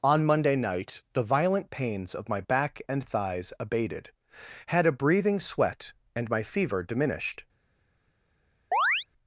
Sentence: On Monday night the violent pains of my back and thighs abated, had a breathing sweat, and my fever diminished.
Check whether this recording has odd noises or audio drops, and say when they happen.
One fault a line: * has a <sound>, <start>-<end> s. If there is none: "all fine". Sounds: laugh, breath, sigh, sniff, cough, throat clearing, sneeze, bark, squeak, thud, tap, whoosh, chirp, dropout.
* has a chirp, 8.7-9.1 s